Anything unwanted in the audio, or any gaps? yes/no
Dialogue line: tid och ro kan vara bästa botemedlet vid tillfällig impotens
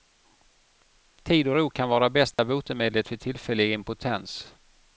yes